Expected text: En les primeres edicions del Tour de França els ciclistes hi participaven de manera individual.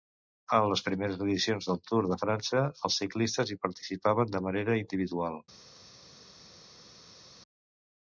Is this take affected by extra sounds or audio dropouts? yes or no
no